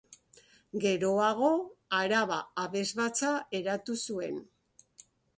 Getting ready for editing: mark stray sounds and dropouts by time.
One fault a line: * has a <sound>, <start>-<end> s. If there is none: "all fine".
all fine